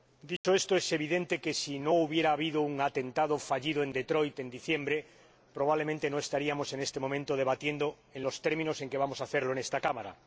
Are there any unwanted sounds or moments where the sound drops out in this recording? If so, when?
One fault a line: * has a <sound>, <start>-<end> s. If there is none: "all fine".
* has a dropout, 0.4-0.4 s